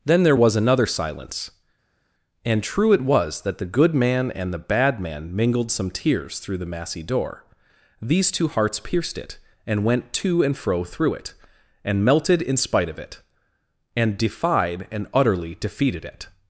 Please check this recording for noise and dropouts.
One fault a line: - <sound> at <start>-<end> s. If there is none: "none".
none